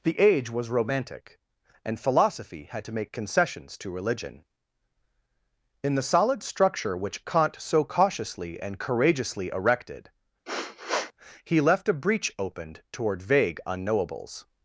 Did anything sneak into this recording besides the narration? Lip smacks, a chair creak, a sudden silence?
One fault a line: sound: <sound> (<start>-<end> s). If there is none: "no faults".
sound: sniff (10.5-11.1 s)